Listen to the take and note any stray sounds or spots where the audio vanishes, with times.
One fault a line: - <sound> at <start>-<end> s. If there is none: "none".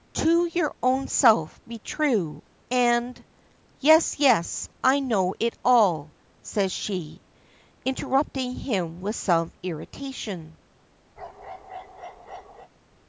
- bark at 11.2-12.7 s